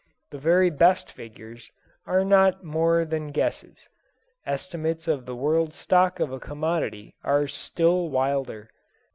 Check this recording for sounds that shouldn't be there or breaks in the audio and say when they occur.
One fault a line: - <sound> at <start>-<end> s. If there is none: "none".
none